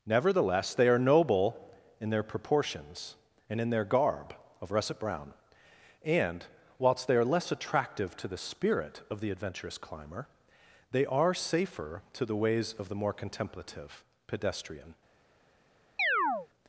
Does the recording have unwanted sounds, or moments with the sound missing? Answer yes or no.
yes